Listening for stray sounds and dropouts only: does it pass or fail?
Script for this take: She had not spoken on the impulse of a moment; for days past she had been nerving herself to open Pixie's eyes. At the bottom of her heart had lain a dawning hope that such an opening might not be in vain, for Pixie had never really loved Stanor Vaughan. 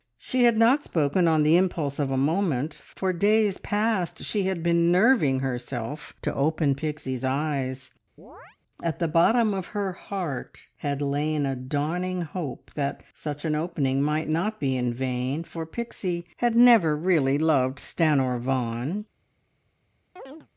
fail